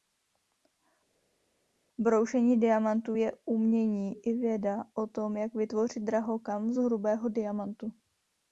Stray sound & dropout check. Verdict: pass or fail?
pass